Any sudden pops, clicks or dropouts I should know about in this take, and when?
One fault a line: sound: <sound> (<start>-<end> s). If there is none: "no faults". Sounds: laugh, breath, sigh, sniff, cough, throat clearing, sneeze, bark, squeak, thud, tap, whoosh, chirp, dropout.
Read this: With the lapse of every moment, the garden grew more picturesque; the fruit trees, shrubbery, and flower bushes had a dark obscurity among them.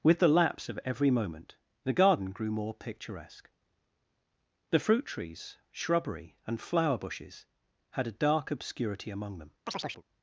sound: chirp (9.7-10.0 s)